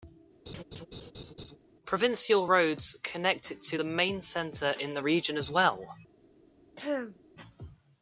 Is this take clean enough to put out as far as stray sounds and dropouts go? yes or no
no